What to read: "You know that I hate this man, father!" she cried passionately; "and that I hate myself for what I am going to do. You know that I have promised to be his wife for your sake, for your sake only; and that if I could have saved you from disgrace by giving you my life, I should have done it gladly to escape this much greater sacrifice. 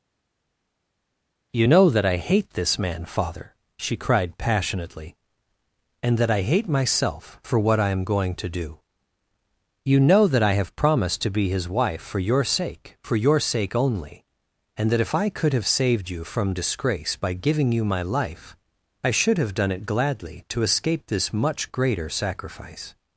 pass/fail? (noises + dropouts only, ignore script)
pass